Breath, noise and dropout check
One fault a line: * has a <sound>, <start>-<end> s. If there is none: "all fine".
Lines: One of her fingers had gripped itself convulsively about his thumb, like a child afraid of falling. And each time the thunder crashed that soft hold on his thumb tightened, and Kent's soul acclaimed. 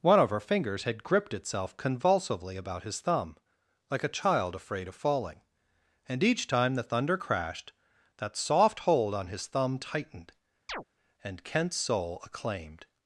* has a chirp, 10.7-10.8 s